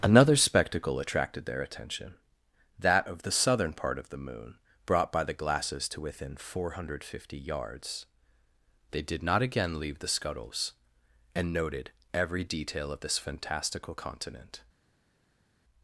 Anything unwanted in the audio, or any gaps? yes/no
no